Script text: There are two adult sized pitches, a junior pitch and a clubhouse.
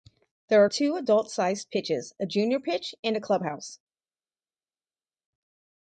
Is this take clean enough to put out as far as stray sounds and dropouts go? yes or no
yes